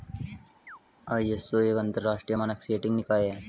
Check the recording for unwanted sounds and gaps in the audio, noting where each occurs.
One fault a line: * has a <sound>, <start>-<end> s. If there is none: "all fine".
* has a chirp, 0.7-0.8 s